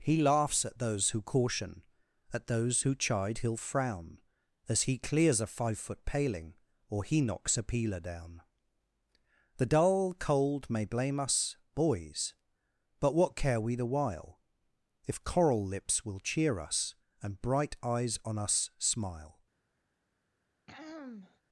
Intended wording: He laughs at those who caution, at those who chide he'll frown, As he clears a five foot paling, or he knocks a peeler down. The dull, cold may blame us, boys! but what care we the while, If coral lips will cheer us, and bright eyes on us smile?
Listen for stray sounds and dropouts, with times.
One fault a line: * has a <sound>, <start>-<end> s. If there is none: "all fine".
* has a throat clearing, 20.7-21.4 s